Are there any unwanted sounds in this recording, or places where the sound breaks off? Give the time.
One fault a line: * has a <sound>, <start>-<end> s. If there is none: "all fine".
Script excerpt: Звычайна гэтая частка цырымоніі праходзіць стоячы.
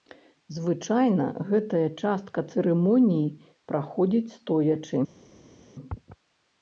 all fine